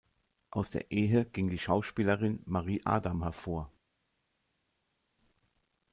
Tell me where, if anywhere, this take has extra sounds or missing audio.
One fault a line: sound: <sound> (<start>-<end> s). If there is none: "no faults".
no faults